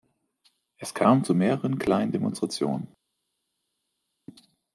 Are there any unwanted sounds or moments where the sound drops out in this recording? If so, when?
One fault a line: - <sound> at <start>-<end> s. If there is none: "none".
none